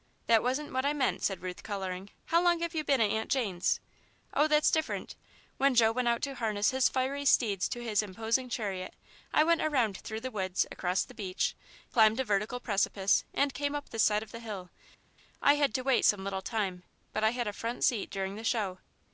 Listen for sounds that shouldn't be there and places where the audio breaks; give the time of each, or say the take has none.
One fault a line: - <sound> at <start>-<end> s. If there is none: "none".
none